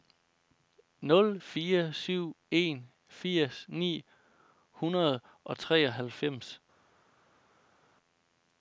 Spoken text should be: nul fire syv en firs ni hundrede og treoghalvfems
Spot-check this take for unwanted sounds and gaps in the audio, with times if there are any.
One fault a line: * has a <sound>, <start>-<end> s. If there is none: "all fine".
all fine